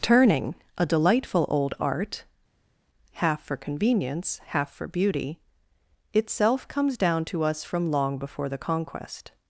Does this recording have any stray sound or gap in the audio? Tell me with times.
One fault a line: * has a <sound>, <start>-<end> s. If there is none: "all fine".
all fine